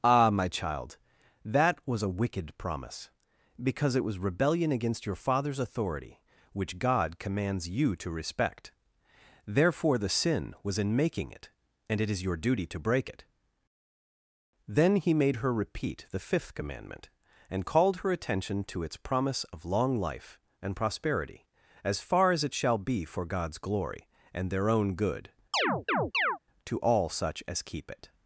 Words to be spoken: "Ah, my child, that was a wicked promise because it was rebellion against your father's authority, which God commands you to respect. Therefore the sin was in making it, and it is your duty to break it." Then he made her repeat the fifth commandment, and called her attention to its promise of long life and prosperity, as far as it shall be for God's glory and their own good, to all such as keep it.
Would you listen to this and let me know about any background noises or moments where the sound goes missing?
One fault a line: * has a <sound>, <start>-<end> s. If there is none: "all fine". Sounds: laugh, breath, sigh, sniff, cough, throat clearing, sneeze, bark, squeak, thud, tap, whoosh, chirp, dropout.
* has a chirp, 25.5-26.4 s